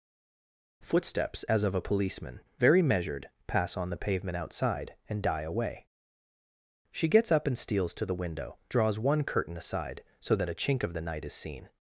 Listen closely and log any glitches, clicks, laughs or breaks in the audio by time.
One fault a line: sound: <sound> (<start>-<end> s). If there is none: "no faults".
no faults